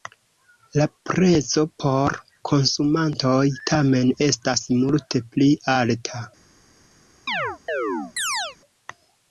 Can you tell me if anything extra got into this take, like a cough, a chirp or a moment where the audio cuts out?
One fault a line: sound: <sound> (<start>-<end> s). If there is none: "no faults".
sound: chirp (7.3-8.6 s)